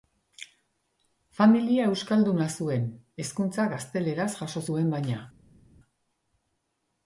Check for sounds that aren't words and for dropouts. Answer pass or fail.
pass